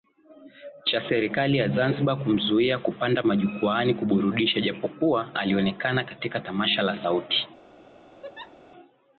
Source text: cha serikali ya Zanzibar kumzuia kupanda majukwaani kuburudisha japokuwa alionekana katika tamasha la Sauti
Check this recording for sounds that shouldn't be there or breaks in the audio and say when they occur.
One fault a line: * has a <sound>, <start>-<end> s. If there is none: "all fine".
* has a laugh, 8.2-8.6 s